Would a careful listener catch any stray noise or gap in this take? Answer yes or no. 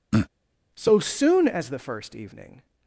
yes